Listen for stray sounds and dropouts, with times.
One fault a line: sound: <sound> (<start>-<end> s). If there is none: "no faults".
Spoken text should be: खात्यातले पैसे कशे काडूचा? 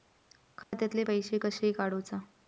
sound: dropout (0.6-0.7 s)